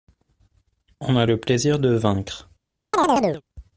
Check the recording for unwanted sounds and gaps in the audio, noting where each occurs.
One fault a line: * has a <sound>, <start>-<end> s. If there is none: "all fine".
* has a chirp, 2.9-3.4 s